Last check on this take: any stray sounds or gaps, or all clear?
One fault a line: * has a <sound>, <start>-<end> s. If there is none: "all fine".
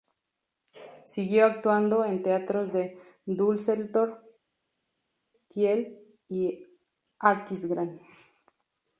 all fine